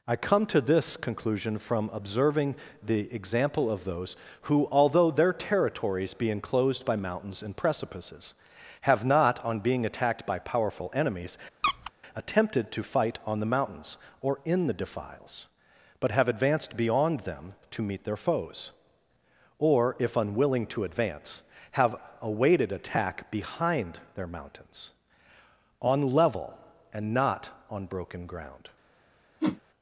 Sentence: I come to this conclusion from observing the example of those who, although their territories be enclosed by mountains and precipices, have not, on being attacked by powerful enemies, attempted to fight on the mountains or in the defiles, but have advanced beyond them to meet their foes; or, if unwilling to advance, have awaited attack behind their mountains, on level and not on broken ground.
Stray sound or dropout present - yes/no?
yes